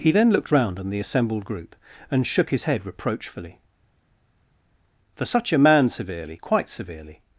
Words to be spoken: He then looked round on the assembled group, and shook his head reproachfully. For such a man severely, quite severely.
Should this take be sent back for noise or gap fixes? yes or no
no